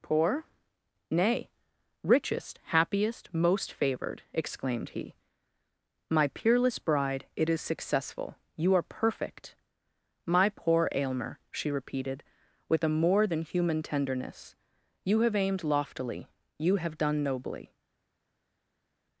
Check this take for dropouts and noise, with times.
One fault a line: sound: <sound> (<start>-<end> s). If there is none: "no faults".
no faults